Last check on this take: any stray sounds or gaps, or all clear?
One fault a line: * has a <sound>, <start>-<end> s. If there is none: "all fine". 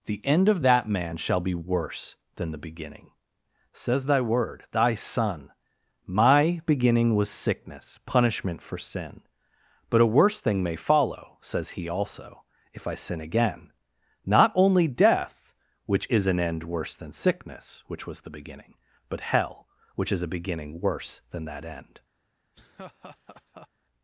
* has a laugh, 22.5-23.7 s